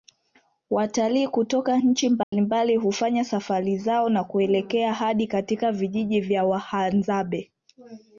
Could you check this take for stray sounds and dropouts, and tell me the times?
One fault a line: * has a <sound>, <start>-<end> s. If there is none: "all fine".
* has a dropout, 2.2-2.3 s